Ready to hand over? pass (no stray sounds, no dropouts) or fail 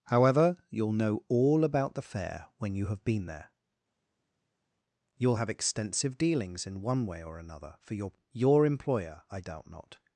pass